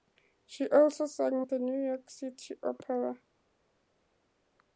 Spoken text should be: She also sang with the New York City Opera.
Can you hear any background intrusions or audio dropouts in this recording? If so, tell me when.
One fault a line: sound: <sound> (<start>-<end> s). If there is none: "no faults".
no faults